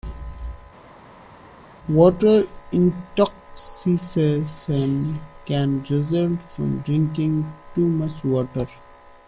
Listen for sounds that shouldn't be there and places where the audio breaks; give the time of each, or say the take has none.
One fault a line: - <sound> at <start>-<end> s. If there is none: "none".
none